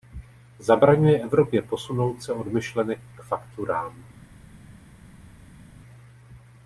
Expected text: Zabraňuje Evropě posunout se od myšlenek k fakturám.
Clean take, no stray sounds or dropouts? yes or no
yes